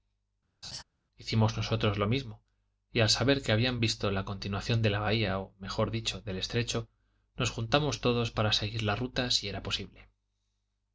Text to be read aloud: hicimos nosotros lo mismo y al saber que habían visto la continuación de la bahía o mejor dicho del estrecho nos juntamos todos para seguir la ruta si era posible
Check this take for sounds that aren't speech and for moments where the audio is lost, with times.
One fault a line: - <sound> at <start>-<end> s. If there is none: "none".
- laugh at 0.6-0.8 s